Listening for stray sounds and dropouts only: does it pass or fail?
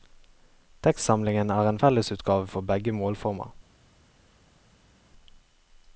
pass